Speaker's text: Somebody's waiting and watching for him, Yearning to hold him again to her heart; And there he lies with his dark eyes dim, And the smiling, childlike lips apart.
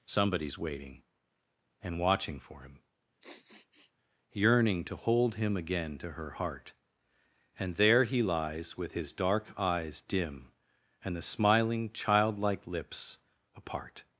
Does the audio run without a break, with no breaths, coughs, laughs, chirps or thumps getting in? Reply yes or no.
no